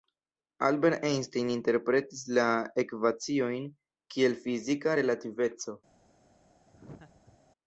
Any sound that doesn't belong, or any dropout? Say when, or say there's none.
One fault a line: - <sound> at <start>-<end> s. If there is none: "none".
- laugh at 6.7-7.4 s